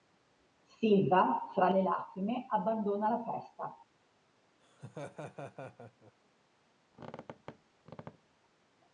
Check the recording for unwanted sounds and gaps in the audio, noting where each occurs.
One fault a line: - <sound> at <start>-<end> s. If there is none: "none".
- laugh at 4.6-6.1 s
- squeak at 6.9-8.4 s